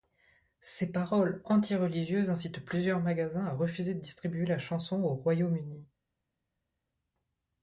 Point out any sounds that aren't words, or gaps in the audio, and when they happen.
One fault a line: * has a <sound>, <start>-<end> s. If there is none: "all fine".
all fine